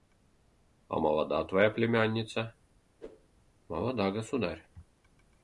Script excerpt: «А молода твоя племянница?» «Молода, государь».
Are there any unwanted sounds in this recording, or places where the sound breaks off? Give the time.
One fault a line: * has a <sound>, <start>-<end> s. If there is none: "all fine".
* has a whoosh, 3.0-3.3 s